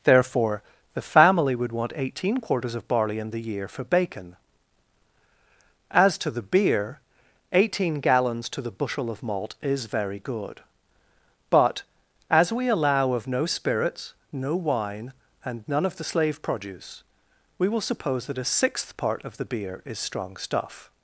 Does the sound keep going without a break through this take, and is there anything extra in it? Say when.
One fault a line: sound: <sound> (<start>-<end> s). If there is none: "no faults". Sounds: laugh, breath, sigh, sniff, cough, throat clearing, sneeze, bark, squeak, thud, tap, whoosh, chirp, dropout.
no faults